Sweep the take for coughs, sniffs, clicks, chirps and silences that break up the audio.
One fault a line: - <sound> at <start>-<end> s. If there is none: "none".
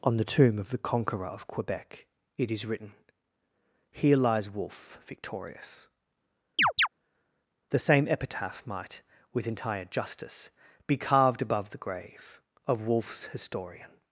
- chirp at 6.6-6.9 s